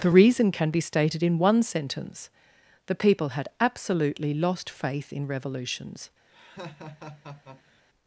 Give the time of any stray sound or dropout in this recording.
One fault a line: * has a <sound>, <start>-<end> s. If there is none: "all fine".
* has a laugh, 6.3-7.8 s